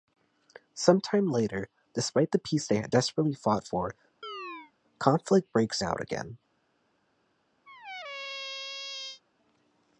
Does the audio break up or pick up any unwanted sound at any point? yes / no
yes